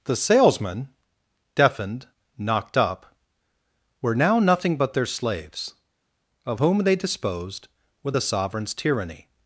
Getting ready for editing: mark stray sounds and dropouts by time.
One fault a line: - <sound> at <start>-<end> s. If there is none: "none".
none